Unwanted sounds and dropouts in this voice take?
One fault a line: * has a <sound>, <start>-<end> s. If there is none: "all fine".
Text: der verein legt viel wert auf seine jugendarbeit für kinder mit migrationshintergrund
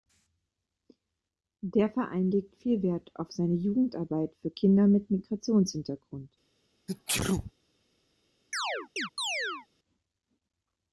* has a sneeze, 6.9-7.5 s
* has a chirp, 8.5-9.7 s